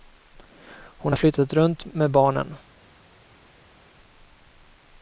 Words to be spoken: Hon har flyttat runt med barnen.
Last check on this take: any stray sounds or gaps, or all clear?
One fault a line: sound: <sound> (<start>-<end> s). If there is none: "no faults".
no faults